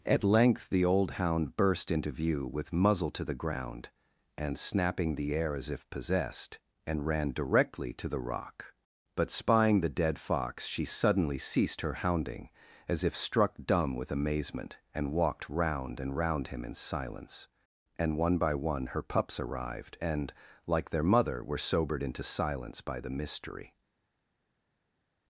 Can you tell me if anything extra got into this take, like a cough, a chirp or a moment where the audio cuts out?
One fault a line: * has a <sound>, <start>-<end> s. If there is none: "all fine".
all fine